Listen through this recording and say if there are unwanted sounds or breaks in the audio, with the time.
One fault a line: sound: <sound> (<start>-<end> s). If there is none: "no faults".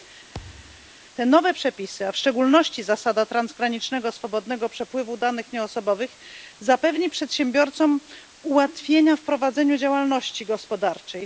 sound: thud (0.3-0.9 s)